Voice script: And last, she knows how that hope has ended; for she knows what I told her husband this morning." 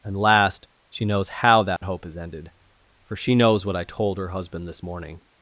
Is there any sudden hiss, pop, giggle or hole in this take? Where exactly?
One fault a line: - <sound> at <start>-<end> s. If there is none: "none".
- dropout at 1.8-1.8 s